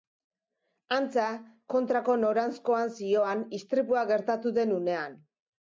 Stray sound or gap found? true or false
false